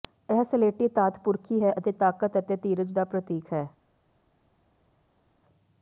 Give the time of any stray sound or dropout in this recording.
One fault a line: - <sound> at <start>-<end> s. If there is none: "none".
none